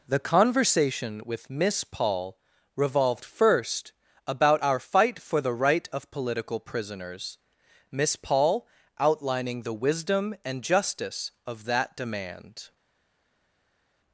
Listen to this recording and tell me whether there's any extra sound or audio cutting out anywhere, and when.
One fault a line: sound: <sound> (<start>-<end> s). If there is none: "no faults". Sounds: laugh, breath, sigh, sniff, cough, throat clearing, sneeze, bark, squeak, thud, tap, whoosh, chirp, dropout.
no faults